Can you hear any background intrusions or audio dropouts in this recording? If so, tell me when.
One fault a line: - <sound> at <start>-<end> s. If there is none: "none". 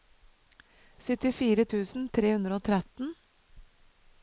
none